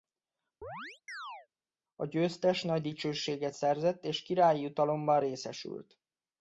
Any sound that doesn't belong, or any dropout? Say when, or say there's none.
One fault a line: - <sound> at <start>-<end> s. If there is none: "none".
- chirp at 0.6-1.5 s